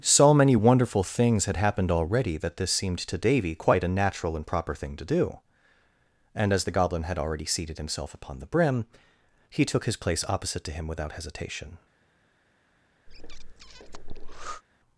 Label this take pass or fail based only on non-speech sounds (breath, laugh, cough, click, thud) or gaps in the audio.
fail